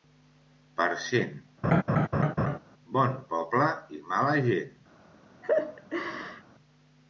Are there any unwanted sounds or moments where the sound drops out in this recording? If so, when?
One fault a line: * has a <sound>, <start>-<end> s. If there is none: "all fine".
* has a laugh, 1.6-2.6 s
* has a laugh, 5.4-6.4 s